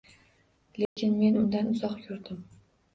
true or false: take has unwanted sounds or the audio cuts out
true